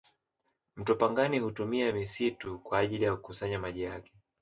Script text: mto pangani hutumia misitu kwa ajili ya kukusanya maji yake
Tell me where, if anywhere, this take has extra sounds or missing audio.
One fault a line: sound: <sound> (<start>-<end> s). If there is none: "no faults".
no faults